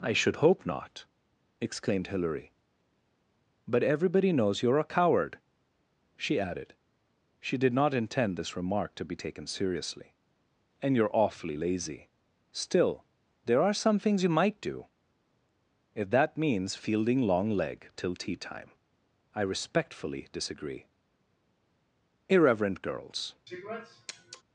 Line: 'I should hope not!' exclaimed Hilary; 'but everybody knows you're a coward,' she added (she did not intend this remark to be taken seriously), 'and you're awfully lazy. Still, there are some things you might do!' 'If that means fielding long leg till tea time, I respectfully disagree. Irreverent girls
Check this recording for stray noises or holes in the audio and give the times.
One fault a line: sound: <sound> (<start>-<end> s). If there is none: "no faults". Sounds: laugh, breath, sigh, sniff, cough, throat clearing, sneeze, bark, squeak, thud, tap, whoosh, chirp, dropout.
sound: sniff (23.5-24.4 s)